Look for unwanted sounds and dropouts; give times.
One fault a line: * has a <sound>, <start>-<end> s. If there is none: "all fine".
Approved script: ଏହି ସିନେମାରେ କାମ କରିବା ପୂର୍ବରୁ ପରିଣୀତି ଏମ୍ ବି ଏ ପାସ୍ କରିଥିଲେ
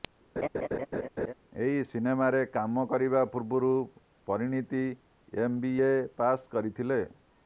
* has a laugh, 0.4-1.3 s